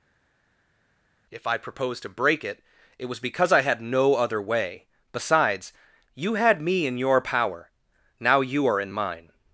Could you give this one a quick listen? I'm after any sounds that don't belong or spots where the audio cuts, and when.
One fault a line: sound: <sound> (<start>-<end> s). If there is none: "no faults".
no faults